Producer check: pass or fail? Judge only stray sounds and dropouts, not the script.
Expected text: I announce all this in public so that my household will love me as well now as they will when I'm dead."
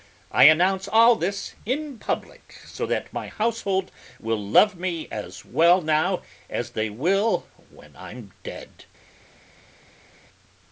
pass